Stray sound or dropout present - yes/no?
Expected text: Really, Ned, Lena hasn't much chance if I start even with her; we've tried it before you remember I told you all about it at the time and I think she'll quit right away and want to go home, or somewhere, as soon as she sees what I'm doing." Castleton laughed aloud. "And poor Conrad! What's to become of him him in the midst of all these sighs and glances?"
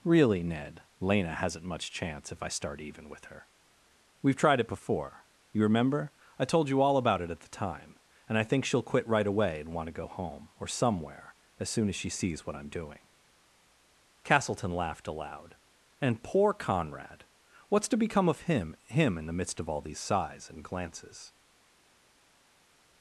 no